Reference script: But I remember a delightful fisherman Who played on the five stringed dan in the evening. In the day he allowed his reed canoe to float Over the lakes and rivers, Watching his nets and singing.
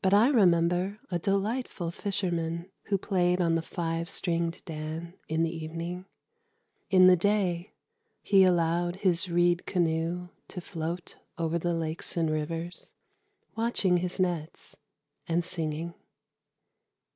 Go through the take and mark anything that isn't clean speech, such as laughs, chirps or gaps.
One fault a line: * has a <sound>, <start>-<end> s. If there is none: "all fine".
all fine